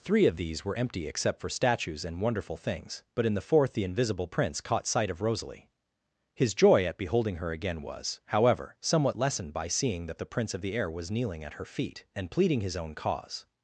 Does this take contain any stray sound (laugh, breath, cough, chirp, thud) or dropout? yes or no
no